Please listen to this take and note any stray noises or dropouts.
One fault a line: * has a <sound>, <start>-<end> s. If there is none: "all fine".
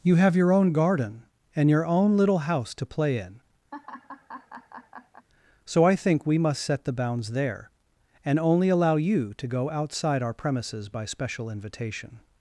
* has a laugh, 3.7-5.3 s